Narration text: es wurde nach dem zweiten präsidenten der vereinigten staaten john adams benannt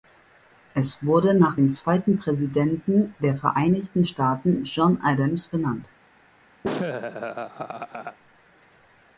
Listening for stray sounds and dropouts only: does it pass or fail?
fail